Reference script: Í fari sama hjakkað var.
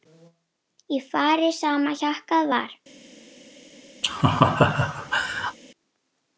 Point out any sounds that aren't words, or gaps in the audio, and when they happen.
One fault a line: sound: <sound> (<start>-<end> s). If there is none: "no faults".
sound: laugh (4.0-5.6 s)